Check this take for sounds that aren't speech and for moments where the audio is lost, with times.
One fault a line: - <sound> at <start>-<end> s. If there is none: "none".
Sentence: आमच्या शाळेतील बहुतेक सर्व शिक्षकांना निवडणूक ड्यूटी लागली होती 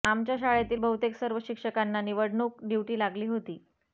none